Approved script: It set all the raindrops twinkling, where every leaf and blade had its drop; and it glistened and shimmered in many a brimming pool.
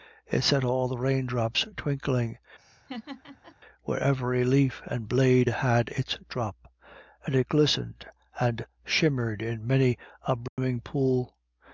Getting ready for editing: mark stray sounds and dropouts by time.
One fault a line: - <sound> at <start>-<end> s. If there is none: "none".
- laugh at 2.6-3.6 s
- dropout at 10.5-10.6 s